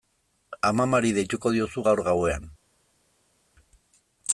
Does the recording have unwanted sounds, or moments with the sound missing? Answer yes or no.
no